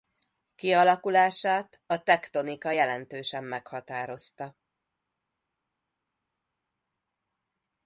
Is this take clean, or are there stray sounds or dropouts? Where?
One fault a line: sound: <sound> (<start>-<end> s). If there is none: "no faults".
no faults